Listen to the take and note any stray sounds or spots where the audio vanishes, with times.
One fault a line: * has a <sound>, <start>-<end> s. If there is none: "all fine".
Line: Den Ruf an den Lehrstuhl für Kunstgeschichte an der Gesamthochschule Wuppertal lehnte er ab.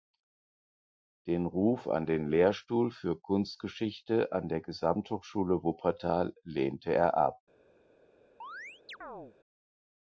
* has a chirp, 8.4-9.4 s